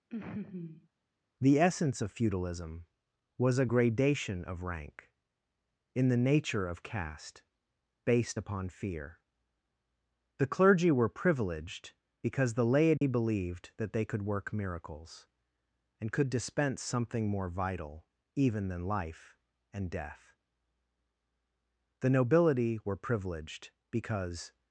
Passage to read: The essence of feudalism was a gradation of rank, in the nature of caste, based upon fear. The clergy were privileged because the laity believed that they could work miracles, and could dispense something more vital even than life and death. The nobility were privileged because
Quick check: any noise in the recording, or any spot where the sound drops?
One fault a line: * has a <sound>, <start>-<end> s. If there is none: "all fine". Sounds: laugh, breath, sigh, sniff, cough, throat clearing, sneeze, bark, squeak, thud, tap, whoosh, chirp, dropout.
* has a laugh, 0.1-0.9 s
* has a dropout, 13.0-13.0 s